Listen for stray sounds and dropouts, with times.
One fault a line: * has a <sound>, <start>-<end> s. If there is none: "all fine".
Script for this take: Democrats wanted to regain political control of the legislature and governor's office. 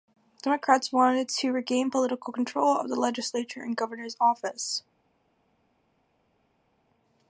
all fine